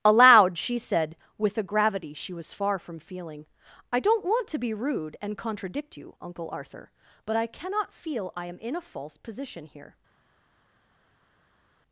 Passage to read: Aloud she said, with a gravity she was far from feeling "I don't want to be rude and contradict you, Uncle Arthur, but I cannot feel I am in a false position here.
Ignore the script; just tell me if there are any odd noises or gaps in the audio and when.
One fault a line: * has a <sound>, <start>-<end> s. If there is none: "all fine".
all fine